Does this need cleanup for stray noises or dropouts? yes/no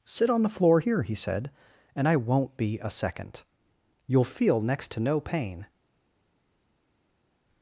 no